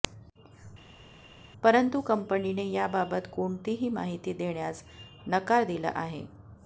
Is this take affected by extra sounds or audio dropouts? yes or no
no